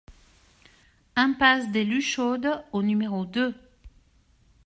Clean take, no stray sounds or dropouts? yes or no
yes